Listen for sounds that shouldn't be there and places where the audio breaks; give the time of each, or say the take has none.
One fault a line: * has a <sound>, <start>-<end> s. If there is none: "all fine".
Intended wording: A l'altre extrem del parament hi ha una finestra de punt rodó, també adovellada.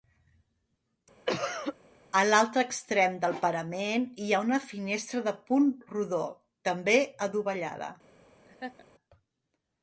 * has a cough, 1.3-1.8 s
* has a laugh, 8.5-8.8 s